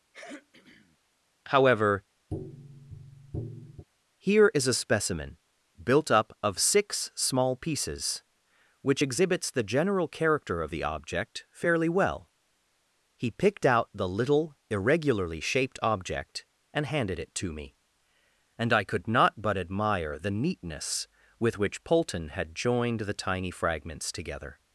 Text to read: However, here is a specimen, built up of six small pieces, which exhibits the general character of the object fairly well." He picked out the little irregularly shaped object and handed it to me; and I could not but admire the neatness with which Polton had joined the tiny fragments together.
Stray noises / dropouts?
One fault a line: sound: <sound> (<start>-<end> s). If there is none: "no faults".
sound: throat clearing (0.1-1.0 s)
sound: tap (2.3-3.8 s)